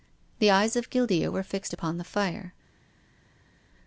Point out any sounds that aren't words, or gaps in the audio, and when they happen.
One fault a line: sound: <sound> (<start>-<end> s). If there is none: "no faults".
no faults